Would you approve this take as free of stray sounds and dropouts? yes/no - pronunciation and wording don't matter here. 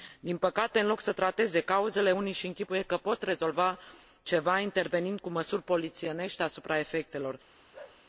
no